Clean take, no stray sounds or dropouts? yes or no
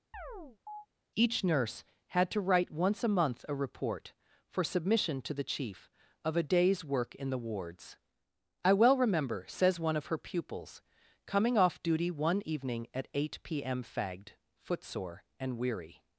no